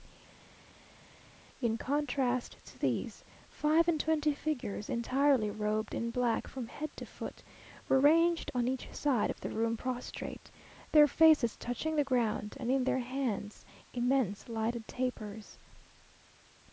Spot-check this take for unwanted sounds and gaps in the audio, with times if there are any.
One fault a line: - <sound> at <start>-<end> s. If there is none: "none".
none